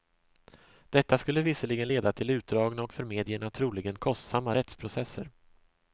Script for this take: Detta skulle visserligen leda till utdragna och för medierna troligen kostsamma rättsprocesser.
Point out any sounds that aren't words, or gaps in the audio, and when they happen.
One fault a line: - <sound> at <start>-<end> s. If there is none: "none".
none